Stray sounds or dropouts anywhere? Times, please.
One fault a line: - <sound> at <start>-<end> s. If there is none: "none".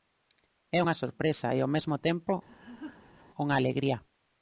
- laugh at 2.5-3.2 s